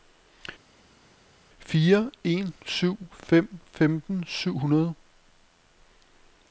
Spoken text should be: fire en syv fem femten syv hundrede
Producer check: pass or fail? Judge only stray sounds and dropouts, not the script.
pass